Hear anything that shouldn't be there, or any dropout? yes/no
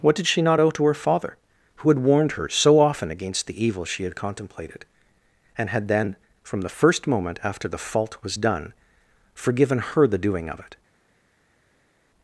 no